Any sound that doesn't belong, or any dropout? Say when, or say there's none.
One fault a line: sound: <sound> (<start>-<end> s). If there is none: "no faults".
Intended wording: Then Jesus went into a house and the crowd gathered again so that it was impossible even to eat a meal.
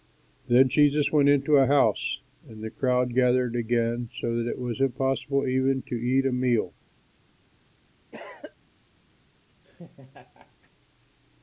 sound: cough (8.1-8.5 s)
sound: laugh (9.6-10.7 s)